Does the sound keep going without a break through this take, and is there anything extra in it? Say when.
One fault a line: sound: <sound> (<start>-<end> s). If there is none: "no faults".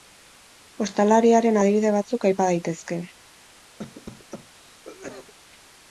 sound: cough (3.8-5.3 s)